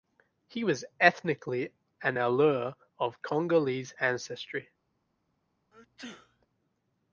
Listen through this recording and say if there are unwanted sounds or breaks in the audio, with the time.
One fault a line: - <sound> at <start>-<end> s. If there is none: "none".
- sneeze at 5.7-6.5 s